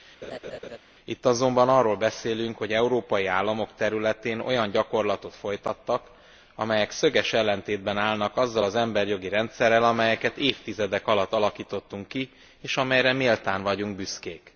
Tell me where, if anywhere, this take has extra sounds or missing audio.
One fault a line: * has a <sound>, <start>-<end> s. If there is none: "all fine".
* has a laugh, 0.2-0.8 s